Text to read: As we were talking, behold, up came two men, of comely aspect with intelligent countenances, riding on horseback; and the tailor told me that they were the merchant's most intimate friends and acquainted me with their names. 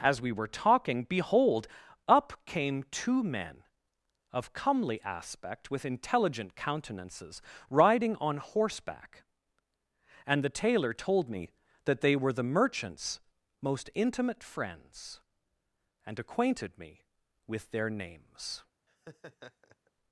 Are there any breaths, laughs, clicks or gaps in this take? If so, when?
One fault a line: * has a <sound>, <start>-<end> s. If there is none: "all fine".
* has a laugh, 18.9-19.9 s